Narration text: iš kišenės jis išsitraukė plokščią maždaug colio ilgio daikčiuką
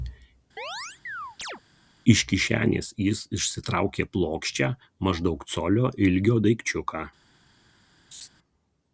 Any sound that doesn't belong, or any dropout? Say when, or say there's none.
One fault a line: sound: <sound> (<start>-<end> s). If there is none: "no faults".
sound: chirp (0.6-1.6 s)
sound: laugh (8.1-8.3 s)